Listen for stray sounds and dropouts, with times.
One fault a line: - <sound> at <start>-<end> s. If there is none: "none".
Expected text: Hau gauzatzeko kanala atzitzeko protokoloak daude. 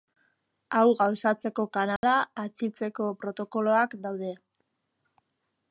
- dropout at 2.0-2.0 s